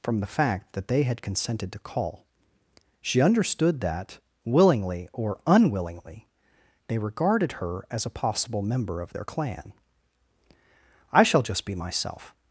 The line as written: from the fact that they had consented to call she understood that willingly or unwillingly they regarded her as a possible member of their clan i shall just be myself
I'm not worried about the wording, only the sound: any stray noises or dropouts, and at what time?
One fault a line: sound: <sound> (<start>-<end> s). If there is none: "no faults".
no faults